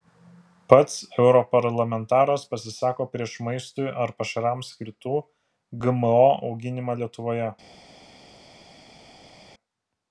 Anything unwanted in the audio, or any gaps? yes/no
no